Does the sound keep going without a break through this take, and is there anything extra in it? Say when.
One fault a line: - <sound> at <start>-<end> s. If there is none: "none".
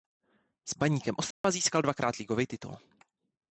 - dropout at 1.3-1.4 s